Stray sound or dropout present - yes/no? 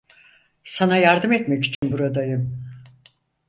yes